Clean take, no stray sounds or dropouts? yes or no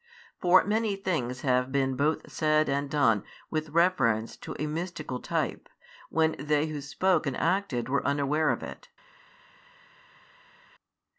yes